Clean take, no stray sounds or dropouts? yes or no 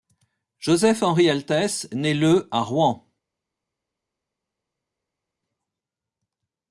yes